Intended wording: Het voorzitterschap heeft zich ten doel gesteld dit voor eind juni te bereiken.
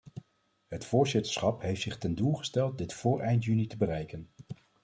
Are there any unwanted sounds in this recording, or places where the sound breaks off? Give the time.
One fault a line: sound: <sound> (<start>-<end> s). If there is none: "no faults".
no faults